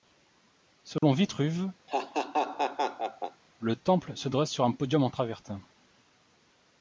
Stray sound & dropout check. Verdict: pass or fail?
fail